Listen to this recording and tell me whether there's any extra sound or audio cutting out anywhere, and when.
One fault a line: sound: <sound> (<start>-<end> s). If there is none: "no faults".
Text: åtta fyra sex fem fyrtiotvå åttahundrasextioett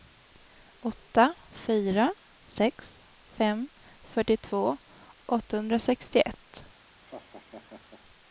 sound: laugh (7.0-8.0 s)